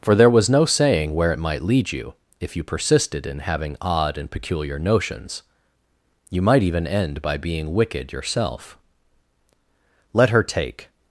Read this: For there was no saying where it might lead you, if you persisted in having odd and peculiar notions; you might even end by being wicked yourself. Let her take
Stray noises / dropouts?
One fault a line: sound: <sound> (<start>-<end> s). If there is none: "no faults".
no faults